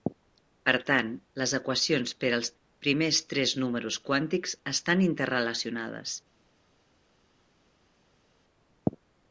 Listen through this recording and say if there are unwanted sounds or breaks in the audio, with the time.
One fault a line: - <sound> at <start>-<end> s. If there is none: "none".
none